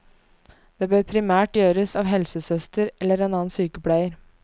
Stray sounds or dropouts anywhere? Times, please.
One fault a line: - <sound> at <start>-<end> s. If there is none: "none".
none